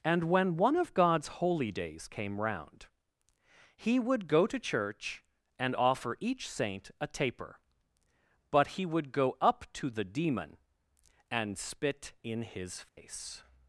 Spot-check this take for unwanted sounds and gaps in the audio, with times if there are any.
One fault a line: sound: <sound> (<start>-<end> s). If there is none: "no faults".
sound: dropout (12.9-13.0 s)